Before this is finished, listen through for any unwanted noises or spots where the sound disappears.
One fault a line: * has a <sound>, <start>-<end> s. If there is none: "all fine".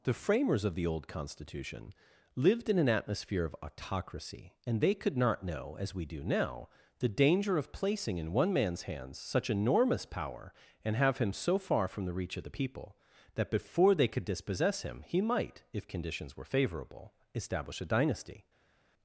all fine